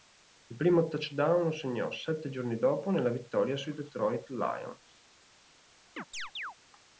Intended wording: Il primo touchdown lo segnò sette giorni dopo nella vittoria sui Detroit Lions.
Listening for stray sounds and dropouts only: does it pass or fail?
fail